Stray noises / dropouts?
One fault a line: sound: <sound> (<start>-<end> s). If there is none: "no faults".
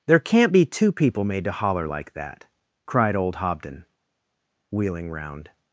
no faults